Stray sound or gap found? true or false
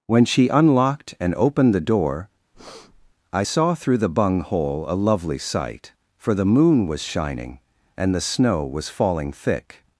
true